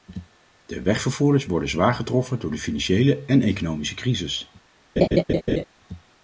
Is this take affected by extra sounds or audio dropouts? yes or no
yes